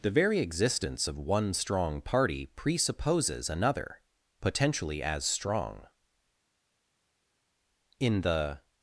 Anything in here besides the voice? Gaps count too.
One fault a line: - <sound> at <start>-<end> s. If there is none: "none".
none